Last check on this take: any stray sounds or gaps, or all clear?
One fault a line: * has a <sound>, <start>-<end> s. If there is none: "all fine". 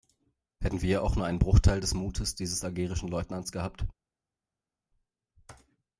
all fine